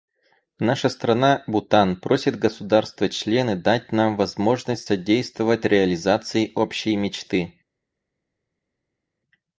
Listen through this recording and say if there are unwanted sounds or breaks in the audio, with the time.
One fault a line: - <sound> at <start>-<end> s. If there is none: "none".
none